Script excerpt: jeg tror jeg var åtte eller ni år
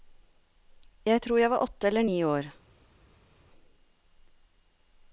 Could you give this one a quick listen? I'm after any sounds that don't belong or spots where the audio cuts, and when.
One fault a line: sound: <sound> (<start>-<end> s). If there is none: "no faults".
no faults